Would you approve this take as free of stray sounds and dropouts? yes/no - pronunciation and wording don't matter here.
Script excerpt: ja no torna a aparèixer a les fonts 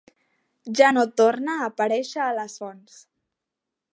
yes